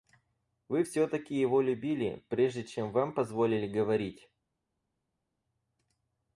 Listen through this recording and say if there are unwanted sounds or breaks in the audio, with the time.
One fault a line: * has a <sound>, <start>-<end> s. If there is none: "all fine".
all fine